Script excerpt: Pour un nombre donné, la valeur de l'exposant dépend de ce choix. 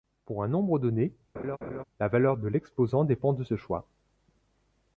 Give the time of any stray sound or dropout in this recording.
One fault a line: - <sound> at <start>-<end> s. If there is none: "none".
- laugh at 1.3-1.8 s